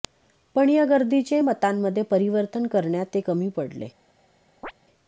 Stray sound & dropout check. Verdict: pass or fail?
fail